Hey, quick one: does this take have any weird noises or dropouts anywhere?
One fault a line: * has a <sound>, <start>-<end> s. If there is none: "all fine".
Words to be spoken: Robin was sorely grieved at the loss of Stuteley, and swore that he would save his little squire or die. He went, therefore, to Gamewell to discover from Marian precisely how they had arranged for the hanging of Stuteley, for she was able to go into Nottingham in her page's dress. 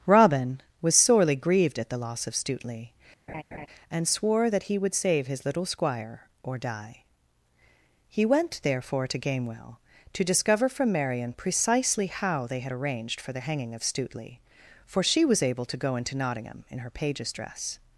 * has a laugh, 3.3-3.7 s